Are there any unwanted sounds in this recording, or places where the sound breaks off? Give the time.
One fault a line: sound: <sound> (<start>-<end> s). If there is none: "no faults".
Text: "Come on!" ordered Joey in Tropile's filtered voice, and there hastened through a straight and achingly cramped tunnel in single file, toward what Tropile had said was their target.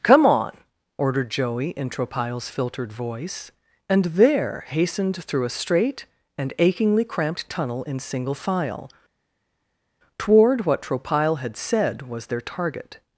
no faults